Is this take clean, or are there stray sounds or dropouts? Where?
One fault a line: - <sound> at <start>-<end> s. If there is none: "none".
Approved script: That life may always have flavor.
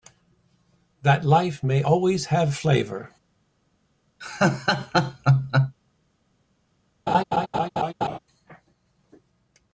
- laugh at 4.2-5.8 s
- laugh at 7.1-8.2 s